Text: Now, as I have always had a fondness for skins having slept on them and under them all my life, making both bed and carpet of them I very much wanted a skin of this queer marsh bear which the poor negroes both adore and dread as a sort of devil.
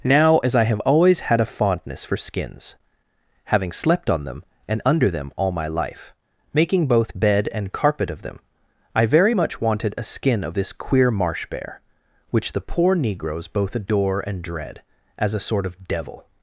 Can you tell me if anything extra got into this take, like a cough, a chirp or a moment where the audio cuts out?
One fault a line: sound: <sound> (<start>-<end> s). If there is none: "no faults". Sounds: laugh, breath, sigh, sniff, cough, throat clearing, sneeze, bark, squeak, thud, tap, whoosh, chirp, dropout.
no faults